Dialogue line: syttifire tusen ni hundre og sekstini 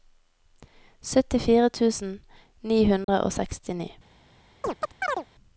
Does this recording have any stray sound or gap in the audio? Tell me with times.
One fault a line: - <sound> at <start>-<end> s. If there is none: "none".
- dropout at 3.0-3.1 s
- chirp at 4.6-5.3 s